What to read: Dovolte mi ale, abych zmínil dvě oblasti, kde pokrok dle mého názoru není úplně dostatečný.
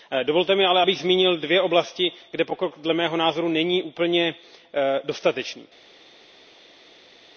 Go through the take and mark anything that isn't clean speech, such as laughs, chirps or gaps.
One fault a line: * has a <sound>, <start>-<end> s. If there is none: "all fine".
all fine